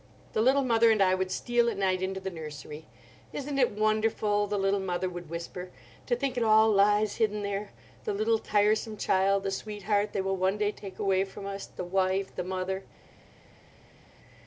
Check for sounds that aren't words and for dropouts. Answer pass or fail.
pass